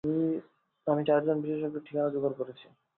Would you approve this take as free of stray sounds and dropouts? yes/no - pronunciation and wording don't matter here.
yes